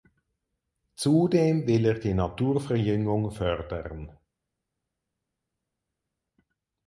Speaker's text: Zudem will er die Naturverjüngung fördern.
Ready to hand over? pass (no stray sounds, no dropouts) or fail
pass